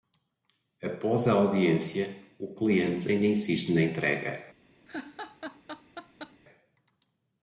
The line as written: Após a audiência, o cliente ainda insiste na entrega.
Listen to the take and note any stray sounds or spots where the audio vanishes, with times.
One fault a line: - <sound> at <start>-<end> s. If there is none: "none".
- laugh at 4.9-6.4 s